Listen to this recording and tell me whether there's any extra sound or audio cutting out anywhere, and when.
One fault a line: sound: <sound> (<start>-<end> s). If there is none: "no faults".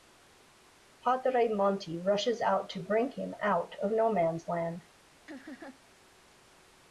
sound: laugh (5.3-5.8 s)